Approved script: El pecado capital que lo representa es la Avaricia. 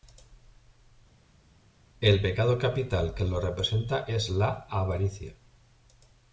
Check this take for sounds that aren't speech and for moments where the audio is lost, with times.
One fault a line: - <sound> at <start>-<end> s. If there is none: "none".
none